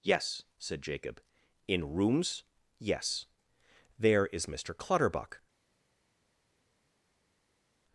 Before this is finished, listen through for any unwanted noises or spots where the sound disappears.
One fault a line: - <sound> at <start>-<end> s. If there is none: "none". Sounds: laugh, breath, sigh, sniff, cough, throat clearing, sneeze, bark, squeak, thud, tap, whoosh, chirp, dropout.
none